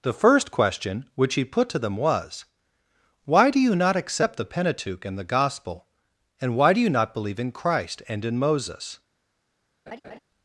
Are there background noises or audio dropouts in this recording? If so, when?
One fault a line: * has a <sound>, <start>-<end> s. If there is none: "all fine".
* has a laugh, 9.9-10.2 s